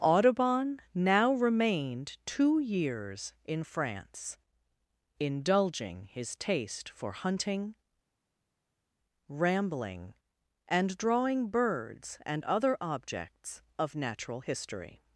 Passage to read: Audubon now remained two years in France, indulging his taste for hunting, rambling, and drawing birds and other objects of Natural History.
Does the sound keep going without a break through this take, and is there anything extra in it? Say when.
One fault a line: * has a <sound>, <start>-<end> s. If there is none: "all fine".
all fine